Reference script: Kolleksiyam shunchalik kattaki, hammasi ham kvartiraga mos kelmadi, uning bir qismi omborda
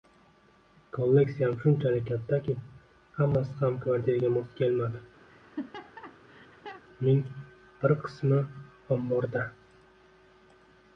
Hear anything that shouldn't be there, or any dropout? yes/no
yes